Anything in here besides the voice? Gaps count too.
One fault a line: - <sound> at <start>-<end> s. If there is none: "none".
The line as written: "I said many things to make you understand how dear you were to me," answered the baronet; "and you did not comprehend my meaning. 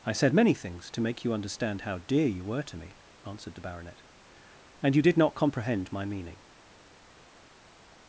none